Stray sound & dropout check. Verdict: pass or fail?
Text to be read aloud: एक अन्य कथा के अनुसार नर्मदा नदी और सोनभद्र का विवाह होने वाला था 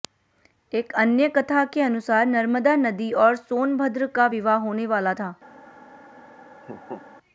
fail